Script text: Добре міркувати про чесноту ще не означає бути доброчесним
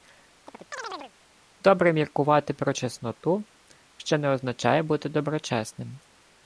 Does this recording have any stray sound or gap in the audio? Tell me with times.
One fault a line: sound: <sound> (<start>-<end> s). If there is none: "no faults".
sound: chirp (0.5-1.1 s)